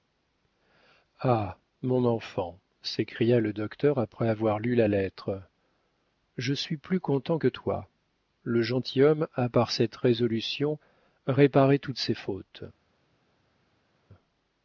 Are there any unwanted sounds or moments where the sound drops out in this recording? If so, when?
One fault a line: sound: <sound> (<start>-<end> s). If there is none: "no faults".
no faults